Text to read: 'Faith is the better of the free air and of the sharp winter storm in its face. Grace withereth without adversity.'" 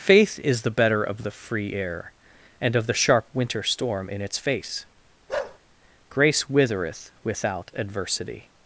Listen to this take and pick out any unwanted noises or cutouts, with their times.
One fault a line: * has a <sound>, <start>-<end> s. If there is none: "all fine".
* has a bark, 5.3-5.6 s